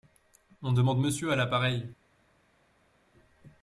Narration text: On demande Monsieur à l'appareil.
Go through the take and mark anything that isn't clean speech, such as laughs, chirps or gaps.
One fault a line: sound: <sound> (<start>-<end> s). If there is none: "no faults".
no faults